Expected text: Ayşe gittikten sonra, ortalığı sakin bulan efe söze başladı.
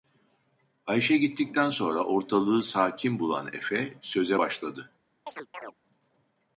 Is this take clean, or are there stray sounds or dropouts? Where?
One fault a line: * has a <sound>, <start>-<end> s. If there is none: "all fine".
* has a chirp, 5.3-5.7 s